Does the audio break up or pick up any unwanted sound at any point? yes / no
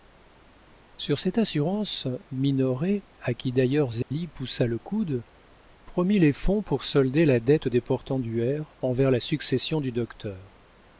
yes